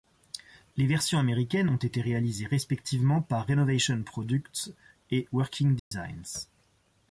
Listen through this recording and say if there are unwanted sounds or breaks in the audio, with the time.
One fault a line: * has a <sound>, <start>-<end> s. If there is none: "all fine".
* has a dropout, 5.8-5.9 s